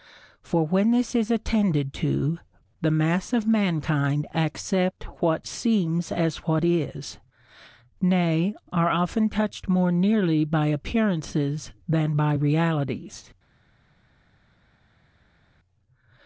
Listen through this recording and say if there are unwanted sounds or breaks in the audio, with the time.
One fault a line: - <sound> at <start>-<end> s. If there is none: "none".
none